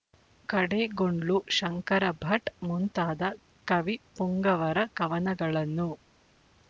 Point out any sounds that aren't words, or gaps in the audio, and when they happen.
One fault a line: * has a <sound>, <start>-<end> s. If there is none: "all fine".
all fine